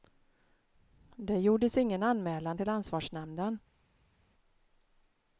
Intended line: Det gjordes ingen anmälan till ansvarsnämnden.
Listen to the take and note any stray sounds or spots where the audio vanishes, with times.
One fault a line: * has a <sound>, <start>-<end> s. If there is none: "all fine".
all fine